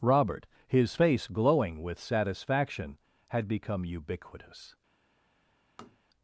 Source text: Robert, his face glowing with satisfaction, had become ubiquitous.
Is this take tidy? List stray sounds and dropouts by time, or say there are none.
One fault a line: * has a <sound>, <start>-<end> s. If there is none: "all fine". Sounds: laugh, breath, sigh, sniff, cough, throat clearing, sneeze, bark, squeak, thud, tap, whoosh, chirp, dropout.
* has a tap, 5.8-6.0 s